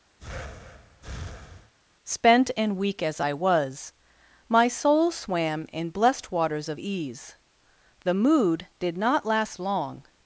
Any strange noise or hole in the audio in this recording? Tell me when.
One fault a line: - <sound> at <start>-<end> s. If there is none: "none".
- breath at 0.2-1.7 s